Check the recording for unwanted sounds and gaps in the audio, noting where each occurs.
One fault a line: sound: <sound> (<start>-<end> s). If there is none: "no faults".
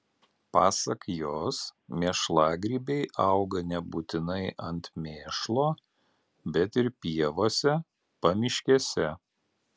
no faults